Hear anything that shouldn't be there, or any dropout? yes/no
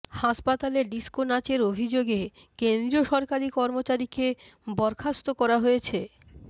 no